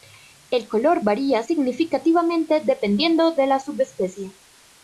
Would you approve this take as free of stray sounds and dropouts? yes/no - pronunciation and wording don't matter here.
yes